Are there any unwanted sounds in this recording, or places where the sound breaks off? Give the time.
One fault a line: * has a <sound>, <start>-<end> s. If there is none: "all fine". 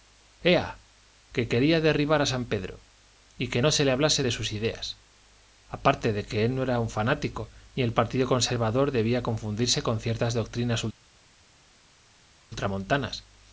all fine